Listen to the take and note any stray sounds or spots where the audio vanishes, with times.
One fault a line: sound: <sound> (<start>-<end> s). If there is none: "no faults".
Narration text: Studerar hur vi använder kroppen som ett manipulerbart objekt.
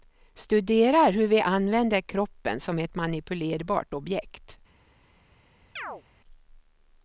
sound: chirp (5.8-6.0 s)